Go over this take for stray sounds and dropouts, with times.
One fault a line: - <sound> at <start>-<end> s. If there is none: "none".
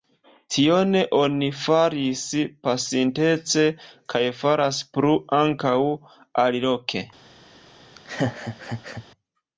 - laugh at 8.0-9.1 s